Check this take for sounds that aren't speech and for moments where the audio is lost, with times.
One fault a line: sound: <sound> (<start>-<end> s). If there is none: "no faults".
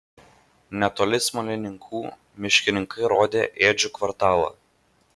no faults